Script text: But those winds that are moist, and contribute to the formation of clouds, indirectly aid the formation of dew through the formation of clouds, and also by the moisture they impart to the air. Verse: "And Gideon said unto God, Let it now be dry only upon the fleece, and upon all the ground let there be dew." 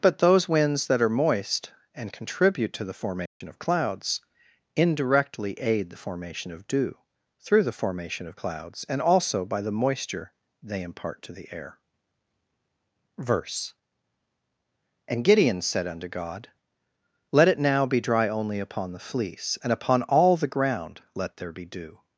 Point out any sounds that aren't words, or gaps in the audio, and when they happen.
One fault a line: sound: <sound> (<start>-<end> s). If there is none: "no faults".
sound: dropout (3.3-3.4 s)